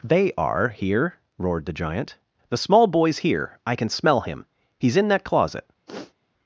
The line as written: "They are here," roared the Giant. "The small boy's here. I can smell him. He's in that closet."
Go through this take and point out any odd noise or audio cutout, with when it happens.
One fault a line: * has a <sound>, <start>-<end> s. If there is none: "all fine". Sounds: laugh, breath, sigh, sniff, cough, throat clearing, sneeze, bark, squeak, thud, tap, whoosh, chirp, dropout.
* has a sniff, 5.9-6.1 s